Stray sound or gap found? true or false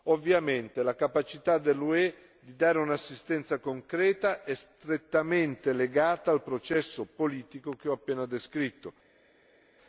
false